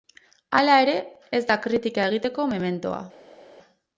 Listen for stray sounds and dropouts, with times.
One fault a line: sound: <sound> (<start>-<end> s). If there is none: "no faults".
no faults